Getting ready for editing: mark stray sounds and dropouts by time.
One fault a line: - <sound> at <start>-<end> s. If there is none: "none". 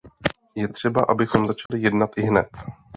- dropout at 1.7-1.7 s